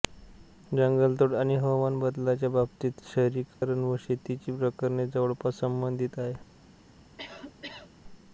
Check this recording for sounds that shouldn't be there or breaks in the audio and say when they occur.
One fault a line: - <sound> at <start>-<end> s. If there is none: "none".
- dropout at 3.6-3.6 s
- cough at 7.2-7.9 s